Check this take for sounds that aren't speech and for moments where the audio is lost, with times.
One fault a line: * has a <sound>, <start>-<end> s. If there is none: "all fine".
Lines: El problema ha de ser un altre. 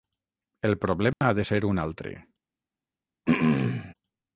* has a dropout, 1.1-1.2 s
* has a throat clearing, 3.3-3.9 s